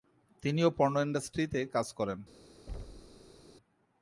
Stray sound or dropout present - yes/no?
yes